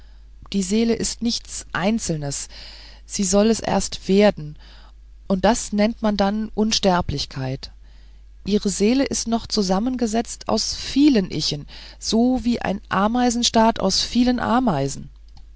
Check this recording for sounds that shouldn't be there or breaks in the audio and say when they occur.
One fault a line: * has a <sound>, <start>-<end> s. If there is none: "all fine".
all fine